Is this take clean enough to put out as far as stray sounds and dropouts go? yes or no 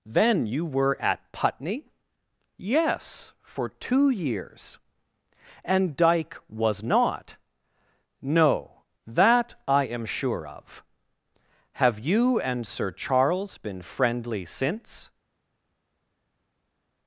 yes